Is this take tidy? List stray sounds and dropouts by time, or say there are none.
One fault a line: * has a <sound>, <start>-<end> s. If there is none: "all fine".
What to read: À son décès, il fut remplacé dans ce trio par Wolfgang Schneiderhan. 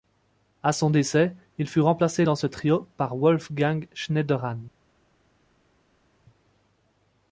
all fine